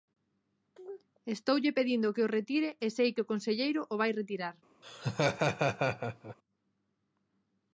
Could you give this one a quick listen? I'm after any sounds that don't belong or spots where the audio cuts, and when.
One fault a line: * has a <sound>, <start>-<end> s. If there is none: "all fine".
* has a laugh, 4.8-6.4 s